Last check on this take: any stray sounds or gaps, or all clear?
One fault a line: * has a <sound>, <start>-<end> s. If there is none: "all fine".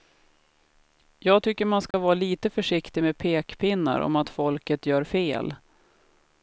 * has a dropout, 1.9-1.9 s